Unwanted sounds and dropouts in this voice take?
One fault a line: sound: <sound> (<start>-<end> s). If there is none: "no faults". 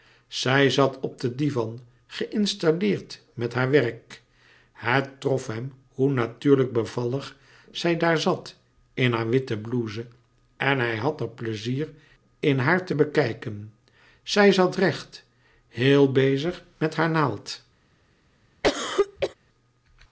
sound: cough (18.6-19.3 s)